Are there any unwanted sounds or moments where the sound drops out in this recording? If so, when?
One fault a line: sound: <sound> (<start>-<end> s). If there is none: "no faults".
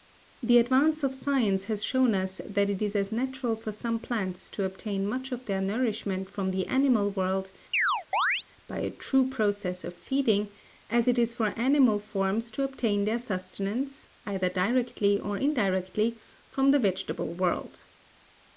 sound: chirp (7.7-8.5 s)